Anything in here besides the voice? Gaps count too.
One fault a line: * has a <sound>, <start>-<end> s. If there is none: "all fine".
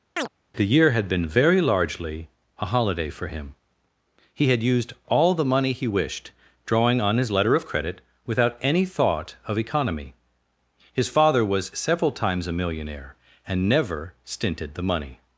* has a chirp, 0.2-0.3 s